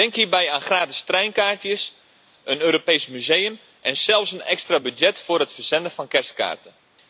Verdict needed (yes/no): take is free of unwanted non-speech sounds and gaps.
yes